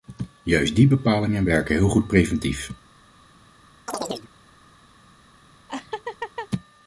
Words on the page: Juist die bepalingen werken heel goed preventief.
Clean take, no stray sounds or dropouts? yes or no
no